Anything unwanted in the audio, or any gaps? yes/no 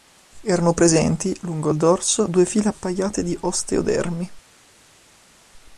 no